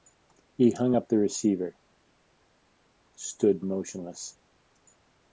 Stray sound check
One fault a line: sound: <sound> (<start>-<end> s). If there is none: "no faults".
no faults